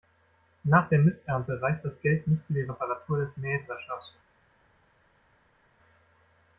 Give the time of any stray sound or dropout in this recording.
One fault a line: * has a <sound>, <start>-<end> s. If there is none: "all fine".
all fine